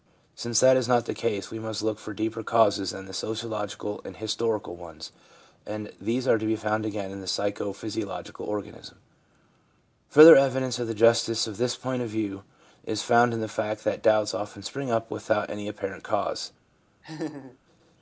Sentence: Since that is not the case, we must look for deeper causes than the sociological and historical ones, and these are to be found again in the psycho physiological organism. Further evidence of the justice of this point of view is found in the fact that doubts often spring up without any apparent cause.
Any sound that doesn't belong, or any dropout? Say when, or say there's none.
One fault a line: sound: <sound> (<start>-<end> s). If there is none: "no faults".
sound: laugh (17.0-17.6 s)